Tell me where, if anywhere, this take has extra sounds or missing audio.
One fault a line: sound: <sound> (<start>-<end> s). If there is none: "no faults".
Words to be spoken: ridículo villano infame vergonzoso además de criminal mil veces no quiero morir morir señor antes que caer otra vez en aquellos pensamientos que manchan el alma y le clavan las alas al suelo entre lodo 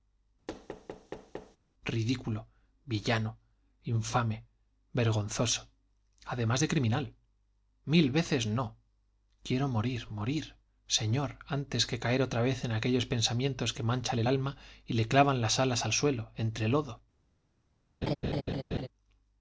sound: thud (0.5-1.6 s)
sound: laugh (18.0-18.9 s)